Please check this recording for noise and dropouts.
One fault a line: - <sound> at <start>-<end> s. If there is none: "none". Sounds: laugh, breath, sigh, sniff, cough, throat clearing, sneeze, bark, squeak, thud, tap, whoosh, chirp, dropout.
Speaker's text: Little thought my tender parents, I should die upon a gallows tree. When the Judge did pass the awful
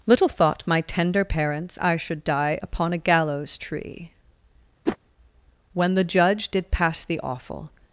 - whoosh at 4.9-5.0 s